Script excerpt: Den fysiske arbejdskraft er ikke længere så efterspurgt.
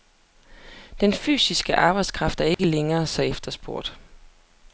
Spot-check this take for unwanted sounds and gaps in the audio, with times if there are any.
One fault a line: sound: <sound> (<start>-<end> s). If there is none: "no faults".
sound: dropout (2.5-2.6 s)